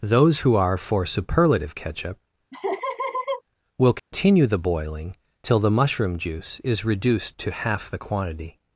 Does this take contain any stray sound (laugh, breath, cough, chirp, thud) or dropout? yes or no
yes